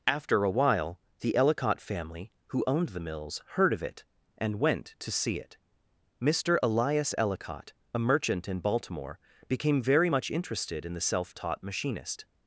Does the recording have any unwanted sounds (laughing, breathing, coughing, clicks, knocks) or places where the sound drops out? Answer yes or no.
no